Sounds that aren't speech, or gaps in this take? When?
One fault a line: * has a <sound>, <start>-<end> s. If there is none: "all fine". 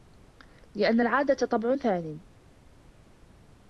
all fine